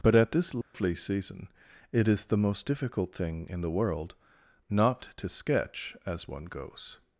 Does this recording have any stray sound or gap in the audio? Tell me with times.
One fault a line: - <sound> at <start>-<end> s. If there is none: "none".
- dropout at 0.6-0.7 s